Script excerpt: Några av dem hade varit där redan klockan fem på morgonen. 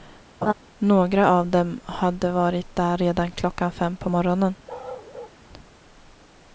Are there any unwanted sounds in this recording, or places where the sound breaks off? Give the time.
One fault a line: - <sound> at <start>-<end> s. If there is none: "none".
- laugh at 0.4-0.5 s
- bark at 4.7-5.4 s